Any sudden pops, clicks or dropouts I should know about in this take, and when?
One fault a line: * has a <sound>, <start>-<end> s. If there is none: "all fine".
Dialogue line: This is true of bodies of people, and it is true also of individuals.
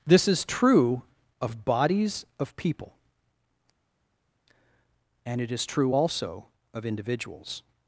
all fine